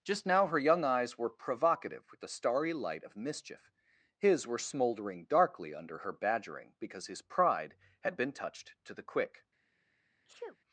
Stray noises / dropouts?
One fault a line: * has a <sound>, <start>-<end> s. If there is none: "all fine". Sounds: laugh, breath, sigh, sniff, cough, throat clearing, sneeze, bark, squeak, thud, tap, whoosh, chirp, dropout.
* has a sneeze, 10.2-10.6 s